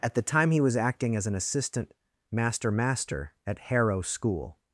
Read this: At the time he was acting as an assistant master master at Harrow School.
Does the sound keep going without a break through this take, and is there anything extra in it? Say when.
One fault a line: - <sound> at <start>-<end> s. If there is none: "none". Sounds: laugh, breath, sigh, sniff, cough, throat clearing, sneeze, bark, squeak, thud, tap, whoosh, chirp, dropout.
none